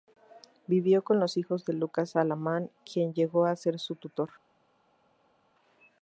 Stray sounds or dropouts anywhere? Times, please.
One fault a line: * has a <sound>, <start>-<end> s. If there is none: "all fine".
all fine